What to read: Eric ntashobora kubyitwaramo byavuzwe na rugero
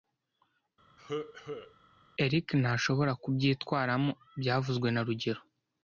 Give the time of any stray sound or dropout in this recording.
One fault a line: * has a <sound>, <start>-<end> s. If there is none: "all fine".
* has a cough, 1.0-1.7 s